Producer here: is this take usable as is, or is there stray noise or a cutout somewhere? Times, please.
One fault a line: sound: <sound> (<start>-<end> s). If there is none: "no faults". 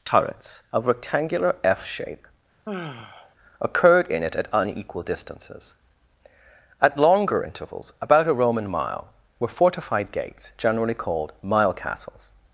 sound: sigh (2.6-3.3 s)